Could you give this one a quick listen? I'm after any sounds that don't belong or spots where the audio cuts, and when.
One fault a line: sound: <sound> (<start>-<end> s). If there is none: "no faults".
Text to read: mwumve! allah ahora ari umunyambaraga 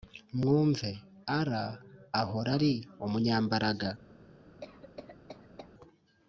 sound: cough (4.6-5.7 s)